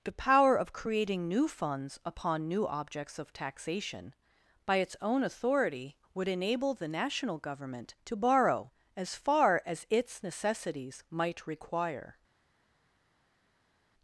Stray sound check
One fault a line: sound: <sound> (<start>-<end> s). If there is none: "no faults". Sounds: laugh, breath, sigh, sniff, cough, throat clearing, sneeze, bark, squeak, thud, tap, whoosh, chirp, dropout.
no faults